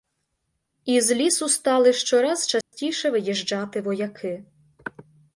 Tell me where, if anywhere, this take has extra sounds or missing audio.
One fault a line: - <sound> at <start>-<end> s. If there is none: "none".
- dropout at 2.6-2.7 s